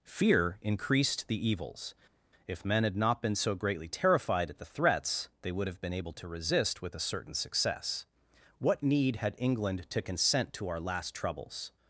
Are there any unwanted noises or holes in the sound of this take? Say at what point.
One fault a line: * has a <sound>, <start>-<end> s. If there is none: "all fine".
all fine